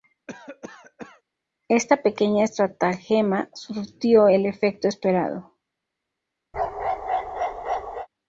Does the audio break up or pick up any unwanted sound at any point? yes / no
yes